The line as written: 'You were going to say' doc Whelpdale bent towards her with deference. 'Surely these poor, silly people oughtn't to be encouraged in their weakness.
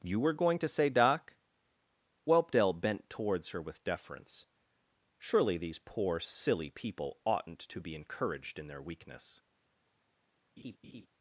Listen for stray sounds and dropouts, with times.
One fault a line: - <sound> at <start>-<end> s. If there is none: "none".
- laugh at 10.6-11.1 s